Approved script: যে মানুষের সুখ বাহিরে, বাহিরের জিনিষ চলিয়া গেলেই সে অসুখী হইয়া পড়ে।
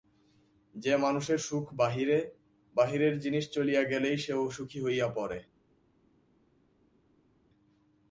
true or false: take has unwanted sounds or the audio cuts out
false